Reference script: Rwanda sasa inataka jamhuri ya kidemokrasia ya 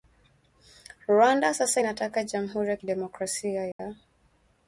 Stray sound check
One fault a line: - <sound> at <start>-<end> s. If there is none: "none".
- dropout at 3.7-3.8 s